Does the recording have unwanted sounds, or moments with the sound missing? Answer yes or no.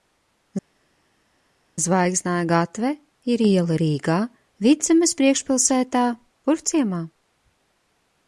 no